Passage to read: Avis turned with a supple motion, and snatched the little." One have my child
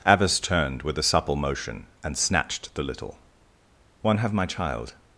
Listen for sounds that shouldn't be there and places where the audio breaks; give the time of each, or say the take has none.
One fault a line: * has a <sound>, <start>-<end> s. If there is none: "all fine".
all fine